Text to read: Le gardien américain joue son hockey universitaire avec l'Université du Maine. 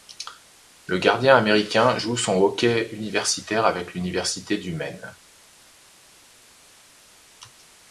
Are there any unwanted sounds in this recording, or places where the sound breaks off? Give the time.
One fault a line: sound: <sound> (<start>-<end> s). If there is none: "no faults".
no faults